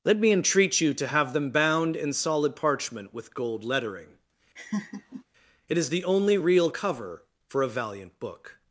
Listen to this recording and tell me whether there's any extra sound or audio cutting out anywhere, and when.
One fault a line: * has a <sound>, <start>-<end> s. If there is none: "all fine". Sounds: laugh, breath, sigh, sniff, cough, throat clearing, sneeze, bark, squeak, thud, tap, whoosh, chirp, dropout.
* has a laugh, 4.6-5.2 s